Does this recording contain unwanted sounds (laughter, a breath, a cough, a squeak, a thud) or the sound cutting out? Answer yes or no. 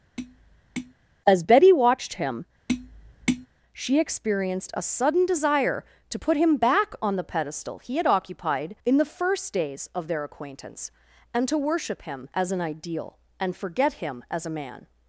yes